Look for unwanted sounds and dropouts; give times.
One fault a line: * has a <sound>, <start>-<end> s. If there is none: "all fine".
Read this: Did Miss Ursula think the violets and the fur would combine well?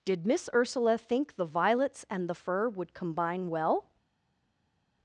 all fine